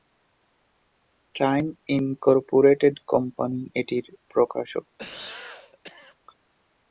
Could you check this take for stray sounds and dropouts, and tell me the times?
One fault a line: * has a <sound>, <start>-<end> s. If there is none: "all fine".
* has a cough, 5.0-6.2 s